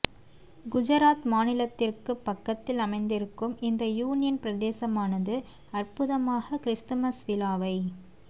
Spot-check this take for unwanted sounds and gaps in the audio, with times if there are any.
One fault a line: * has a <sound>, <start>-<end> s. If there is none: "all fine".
all fine